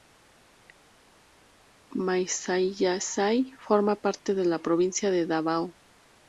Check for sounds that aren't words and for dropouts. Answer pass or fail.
pass